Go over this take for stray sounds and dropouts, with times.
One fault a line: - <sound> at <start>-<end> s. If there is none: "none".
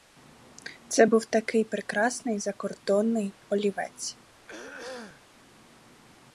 - throat clearing at 4.5-5.3 s